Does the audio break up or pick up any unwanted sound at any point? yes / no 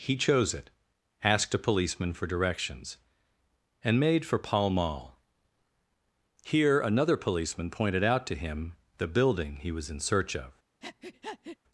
yes